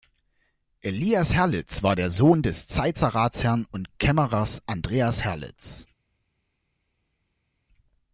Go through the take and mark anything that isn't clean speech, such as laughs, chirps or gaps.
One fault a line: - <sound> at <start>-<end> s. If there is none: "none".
none